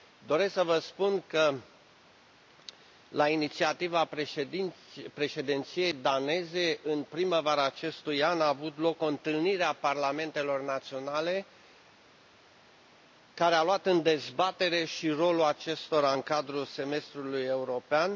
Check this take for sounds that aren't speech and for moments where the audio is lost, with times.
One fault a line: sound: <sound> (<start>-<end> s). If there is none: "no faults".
no faults